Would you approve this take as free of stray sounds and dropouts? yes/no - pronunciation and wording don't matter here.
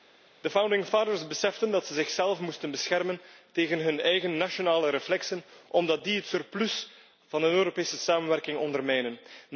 yes